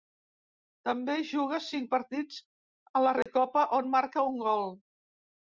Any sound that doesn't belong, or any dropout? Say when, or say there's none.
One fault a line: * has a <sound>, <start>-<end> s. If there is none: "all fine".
* has a dropout, 3.2-3.3 s